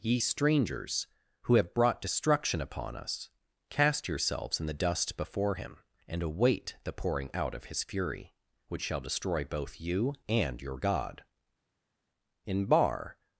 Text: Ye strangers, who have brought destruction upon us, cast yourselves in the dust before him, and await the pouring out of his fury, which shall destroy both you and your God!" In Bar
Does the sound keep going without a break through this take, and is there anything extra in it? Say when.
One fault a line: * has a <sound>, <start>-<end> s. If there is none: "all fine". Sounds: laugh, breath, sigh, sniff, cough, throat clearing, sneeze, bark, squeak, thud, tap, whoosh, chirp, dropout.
all fine